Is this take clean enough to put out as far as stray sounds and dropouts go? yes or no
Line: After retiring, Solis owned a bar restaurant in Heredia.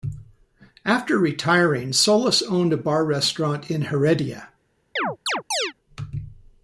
no